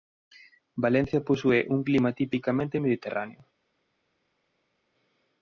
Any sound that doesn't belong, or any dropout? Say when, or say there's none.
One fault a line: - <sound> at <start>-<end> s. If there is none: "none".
none